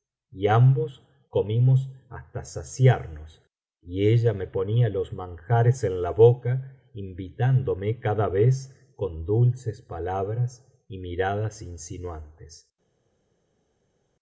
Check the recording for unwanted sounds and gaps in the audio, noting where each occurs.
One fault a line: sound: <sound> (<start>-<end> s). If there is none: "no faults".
no faults